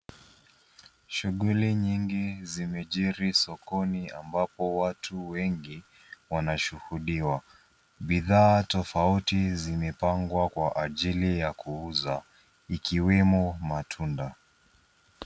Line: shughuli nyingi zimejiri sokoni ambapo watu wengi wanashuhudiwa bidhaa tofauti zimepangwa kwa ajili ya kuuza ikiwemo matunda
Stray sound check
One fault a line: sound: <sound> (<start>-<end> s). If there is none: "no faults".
no faults